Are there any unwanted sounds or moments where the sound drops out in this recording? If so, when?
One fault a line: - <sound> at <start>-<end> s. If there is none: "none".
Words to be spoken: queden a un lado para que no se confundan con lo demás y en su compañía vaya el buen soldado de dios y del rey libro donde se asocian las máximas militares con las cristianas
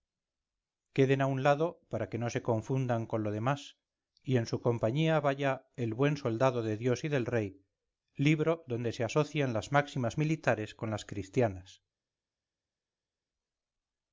none